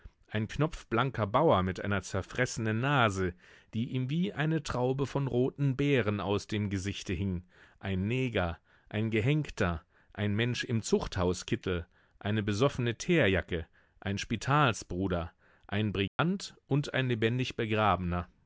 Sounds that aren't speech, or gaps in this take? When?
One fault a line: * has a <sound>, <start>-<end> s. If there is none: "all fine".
* has a dropout, 16.1-16.2 s